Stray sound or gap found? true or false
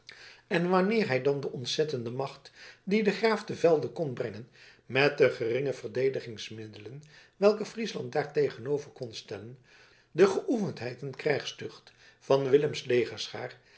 false